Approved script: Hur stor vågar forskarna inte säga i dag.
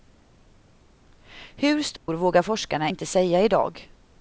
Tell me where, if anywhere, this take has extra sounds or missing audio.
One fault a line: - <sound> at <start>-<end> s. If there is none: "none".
- dropout at 2.0-2.1 s